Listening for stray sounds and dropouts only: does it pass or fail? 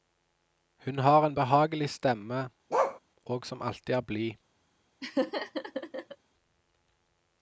fail